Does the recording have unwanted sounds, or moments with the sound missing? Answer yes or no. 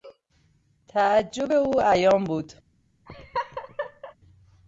yes